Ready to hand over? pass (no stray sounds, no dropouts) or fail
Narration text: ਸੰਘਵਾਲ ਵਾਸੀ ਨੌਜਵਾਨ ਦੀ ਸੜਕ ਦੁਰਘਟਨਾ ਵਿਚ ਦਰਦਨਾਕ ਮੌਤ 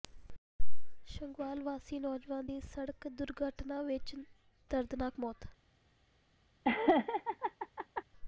fail